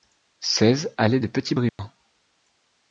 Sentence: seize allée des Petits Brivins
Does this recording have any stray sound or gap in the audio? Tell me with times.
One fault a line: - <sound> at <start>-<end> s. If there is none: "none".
- dropout at 1.7-1.8 s